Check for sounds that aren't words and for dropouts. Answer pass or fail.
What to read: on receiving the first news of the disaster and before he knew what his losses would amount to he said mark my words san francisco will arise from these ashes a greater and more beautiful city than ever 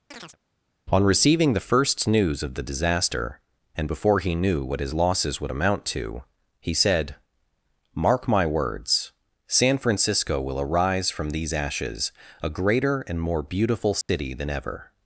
fail